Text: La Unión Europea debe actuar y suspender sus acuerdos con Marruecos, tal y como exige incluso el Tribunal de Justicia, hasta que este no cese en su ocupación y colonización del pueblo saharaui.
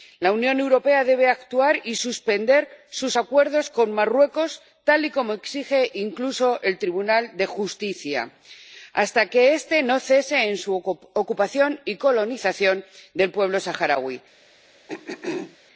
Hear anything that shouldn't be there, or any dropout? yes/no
yes